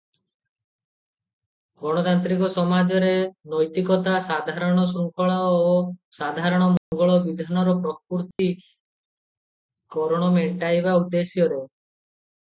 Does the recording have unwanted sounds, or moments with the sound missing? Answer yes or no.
yes